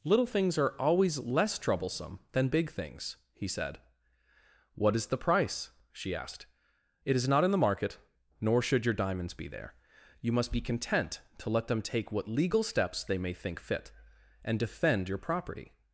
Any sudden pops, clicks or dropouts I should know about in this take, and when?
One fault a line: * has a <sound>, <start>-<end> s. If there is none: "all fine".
all fine